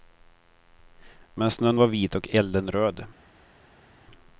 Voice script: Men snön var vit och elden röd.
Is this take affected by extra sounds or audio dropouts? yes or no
no